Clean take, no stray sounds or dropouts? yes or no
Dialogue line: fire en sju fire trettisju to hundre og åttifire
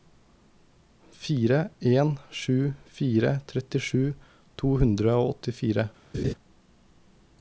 no